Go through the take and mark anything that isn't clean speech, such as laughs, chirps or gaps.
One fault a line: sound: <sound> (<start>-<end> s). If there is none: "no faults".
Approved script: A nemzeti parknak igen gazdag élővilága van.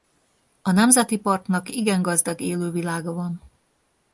no faults